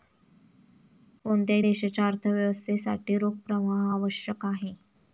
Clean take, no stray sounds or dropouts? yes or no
yes